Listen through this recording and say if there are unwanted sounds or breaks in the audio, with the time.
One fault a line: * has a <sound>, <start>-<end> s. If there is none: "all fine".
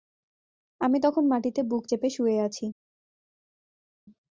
all fine